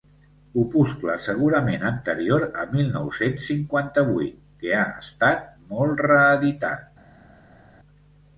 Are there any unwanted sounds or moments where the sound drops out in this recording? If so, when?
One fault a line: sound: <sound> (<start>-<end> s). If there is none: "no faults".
no faults